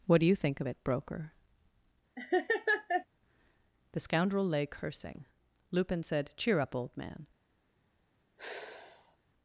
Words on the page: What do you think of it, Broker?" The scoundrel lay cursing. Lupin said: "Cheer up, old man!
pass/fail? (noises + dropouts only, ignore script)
fail